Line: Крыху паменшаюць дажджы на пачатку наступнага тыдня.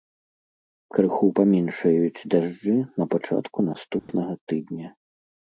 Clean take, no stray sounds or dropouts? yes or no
no